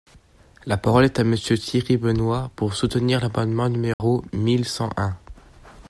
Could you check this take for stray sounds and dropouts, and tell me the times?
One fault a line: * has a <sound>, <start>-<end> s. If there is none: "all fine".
* has a dropout, 3.9-4.0 s